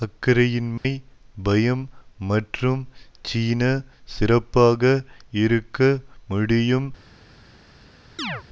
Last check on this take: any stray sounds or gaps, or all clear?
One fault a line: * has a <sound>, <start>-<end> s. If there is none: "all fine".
* has a dropout, 0.8-0.8 s
* has a chirp, 8.2-8.4 s